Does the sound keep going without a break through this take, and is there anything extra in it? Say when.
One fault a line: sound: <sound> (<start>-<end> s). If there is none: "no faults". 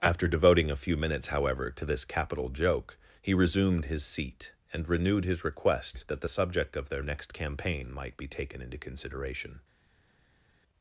no faults